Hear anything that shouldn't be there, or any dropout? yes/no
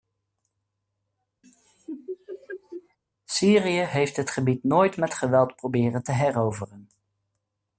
yes